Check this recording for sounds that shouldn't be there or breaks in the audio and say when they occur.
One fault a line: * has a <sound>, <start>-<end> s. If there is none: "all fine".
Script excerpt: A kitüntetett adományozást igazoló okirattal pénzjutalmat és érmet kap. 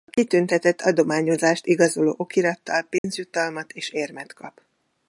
* has a dropout, 3.0-3.0 s